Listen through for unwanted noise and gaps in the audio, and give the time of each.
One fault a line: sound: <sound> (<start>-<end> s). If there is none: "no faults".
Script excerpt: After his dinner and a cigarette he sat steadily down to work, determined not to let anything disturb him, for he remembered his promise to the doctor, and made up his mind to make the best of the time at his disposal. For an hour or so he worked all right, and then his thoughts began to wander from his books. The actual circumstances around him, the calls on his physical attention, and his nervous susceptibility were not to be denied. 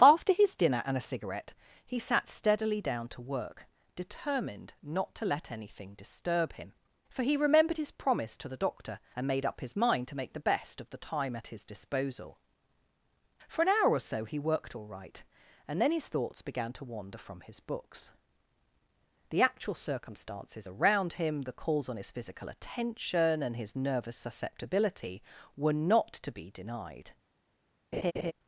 sound: laugh (27.9-28.3 s)